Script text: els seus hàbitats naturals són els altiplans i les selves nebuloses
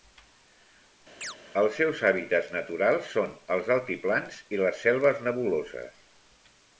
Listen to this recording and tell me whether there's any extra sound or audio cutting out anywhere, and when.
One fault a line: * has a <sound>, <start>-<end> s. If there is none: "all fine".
* has a chirp, 1.2-1.4 s